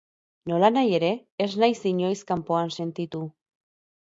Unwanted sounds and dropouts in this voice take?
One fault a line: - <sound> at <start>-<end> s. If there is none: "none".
none